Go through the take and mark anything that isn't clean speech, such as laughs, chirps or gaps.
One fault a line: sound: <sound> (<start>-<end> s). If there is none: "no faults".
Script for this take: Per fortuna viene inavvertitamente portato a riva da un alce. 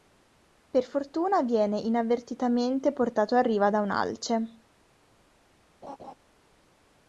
sound: laugh (5.8-6.1 s)